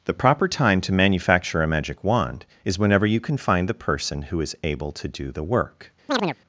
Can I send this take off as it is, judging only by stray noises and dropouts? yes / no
no